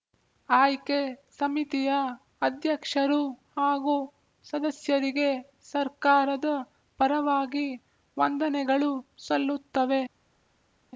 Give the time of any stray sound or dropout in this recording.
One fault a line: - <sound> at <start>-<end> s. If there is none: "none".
none